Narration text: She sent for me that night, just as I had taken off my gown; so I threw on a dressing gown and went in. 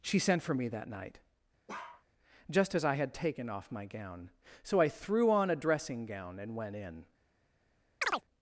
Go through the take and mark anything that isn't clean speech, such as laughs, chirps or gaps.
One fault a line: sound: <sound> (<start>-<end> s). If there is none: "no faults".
sound: bark (1.7-2.0 s)
sound: chirp (8.0-8.2 s)